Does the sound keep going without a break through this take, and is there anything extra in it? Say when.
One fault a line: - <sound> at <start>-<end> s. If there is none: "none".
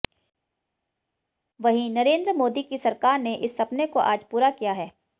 none